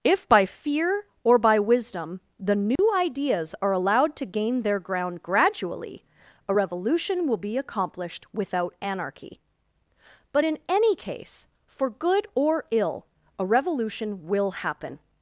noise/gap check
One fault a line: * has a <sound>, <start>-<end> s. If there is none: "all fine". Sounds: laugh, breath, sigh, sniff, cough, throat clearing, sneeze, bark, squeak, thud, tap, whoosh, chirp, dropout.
* has a dropout, 2.8-2.8 s